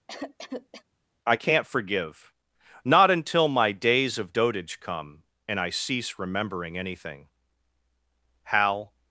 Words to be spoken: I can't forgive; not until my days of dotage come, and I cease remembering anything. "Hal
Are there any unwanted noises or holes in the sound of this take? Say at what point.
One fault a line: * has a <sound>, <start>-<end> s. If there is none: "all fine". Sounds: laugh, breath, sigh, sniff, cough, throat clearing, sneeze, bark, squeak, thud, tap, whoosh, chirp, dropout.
* has a cough, 0.1-0.8 s